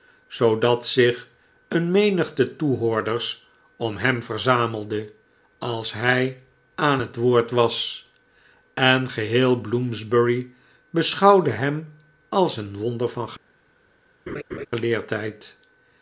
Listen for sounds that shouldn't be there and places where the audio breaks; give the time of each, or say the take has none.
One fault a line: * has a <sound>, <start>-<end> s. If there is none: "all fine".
* has a laugh, 14.3-14.7 s